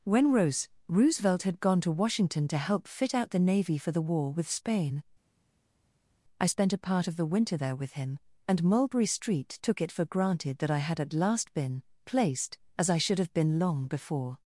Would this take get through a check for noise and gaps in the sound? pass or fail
pass